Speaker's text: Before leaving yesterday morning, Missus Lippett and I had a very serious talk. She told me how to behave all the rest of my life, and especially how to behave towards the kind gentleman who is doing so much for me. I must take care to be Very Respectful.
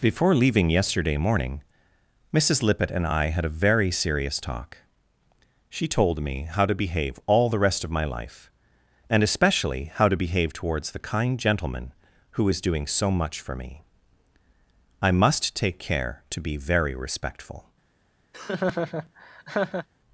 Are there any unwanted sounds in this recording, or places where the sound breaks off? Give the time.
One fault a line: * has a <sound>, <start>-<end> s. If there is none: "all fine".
* has a laugh, 18.3-19.9 s